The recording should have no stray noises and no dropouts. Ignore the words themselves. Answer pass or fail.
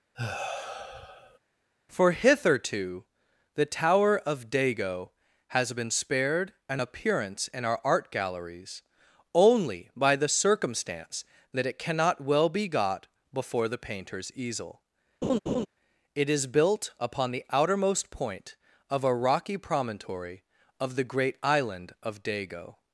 fail